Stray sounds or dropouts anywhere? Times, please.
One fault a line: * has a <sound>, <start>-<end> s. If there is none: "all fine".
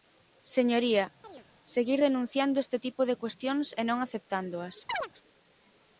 * has a chirp, 1.2-1.5 s
* has a chirp, 4.9-5.1 s